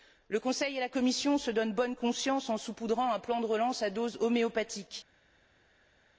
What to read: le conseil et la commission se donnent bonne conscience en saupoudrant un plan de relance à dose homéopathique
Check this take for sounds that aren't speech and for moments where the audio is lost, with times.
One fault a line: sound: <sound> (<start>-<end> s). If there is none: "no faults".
no faults